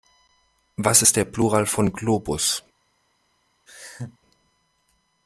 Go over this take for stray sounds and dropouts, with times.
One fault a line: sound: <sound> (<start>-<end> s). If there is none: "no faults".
sound: laugh (3.7-4.2 s)